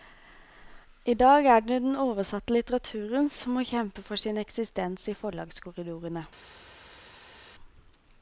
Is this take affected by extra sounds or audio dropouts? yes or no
no